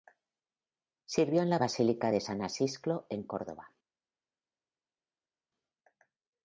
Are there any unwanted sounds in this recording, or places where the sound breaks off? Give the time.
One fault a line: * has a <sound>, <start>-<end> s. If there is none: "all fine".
all fine